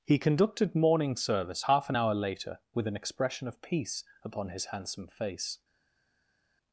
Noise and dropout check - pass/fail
pass